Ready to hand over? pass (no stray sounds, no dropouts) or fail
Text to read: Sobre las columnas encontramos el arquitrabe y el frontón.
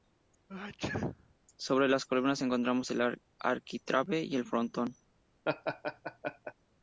fail